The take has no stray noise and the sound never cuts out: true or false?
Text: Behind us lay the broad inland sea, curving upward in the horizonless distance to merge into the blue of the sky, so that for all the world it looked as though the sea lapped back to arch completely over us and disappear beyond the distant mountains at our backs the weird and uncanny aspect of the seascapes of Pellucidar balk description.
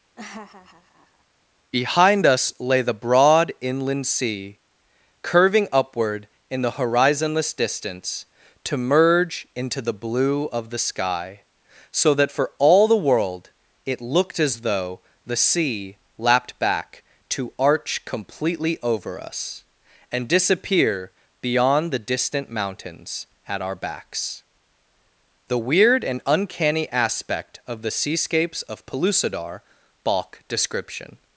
false